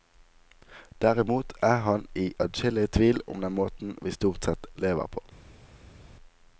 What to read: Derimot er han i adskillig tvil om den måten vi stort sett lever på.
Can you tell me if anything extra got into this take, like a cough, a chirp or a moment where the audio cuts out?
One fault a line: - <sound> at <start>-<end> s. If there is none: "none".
none